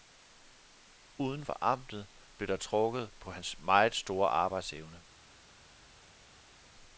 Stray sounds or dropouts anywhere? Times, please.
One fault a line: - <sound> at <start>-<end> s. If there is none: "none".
none